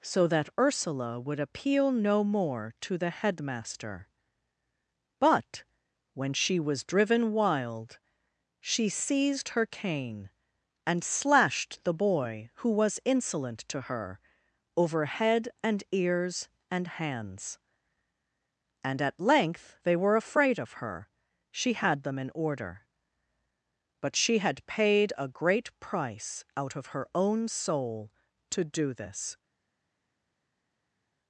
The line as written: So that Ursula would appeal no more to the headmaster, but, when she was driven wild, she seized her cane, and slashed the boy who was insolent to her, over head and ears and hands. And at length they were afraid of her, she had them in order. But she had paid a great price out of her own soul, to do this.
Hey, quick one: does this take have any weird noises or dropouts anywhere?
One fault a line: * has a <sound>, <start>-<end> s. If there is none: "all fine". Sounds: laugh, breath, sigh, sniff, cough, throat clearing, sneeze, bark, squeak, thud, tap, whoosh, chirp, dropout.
all fine